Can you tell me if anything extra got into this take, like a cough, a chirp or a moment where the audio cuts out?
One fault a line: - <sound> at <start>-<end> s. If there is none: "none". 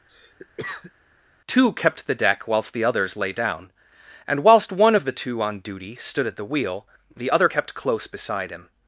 - cough at 0.1-0.9 s